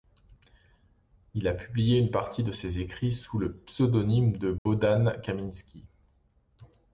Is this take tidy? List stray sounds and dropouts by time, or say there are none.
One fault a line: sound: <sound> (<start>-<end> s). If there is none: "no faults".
sound: dropout (4.6-4.7 s)